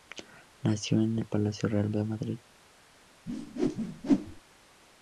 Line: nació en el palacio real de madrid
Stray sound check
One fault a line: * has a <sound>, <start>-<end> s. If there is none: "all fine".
* has a whoosh, 3.3-4.4 s